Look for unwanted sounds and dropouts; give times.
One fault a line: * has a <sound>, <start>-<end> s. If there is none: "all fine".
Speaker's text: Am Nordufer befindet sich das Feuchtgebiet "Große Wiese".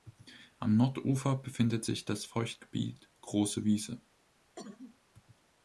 * has a cough, 4.6-5.0 s